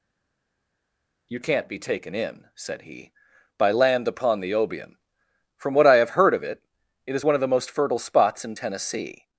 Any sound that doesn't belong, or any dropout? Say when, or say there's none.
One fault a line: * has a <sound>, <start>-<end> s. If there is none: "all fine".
all fine